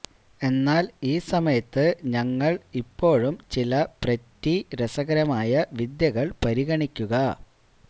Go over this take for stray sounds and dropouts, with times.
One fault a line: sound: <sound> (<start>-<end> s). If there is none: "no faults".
no faults